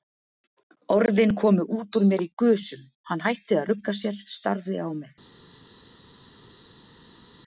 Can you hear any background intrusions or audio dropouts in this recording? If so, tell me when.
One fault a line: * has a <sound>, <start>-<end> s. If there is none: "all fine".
all fine